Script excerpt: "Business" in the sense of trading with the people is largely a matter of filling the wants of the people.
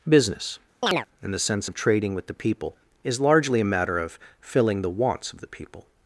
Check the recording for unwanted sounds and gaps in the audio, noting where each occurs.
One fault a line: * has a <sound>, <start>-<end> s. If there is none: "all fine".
* has a chirp, 0.8-1.1 s